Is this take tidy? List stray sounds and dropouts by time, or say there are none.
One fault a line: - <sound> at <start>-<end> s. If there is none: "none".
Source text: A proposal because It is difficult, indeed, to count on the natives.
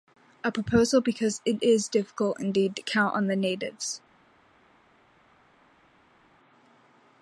none